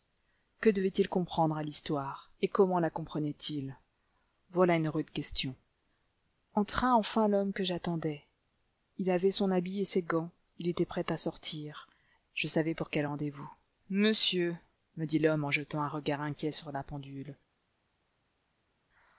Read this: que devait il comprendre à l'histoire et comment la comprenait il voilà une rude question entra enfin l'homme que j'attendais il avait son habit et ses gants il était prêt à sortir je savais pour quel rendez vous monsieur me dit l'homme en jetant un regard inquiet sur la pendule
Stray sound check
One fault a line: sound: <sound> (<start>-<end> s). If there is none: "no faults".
no faults